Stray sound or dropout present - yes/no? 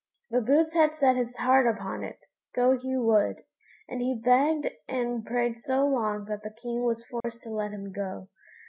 yes